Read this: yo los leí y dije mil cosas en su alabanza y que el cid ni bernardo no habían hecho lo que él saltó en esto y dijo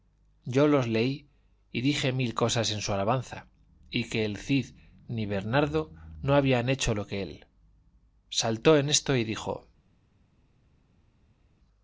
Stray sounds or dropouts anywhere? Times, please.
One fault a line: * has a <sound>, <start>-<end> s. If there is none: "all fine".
all fine